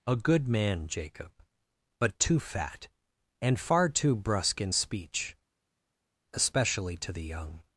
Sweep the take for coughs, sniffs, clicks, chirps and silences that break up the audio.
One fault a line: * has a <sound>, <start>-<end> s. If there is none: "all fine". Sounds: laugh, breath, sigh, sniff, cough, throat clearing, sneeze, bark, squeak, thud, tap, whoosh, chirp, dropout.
all fine